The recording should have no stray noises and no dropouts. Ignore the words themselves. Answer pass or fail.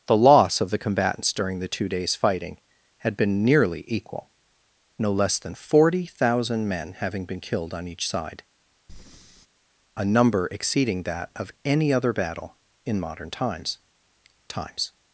fail